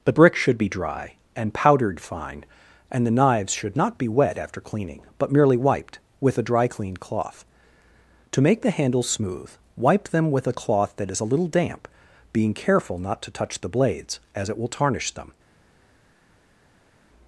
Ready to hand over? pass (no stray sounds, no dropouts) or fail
pass